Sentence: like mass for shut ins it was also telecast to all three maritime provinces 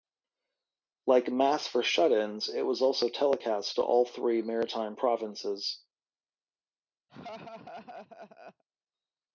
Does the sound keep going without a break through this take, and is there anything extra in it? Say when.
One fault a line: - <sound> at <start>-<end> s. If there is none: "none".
- laugh at 7.1-8.6 s